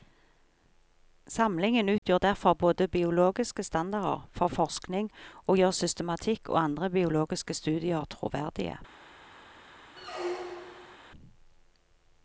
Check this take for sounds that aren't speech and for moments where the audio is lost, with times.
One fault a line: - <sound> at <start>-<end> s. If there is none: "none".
- dropout at 2.0-2.0 s
- squeak at 10.0-11.0 s